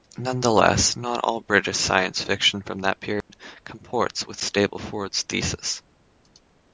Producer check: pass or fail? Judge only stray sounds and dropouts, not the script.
fail